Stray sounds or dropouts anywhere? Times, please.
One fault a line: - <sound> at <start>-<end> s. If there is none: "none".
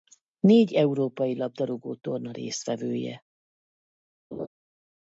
- laugh at 4.3-4.5 s